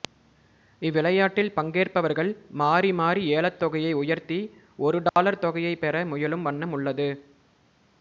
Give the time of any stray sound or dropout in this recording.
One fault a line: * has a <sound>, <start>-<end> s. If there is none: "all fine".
* has a dropout, 5.1-5.2 s